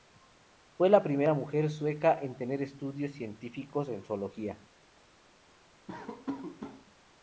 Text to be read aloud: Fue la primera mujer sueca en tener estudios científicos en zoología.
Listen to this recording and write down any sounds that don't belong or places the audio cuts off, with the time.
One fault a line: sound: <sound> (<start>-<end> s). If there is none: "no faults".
sound: laugh (5.9-6.9 s)